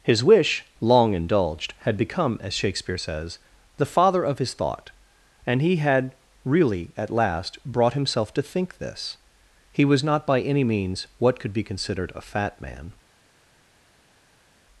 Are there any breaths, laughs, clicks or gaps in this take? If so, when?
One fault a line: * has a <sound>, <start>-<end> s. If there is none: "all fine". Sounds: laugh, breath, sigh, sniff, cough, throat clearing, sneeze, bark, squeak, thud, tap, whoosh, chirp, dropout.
all fine